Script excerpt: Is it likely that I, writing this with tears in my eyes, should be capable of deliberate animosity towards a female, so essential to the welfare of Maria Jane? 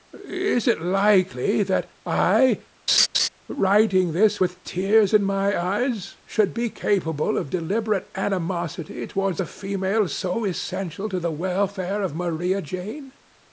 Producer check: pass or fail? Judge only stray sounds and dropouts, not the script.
fail